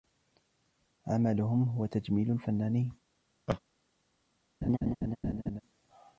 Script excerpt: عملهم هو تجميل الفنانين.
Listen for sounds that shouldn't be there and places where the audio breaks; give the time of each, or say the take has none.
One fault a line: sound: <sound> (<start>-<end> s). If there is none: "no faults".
sound: laugh (3.5-3.6 s)
sound: laugh (4.6-5.6 s)